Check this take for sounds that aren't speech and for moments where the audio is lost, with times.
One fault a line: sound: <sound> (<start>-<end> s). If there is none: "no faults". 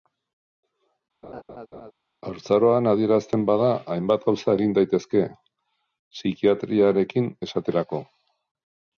sound: laugh (1.2-1.9 s)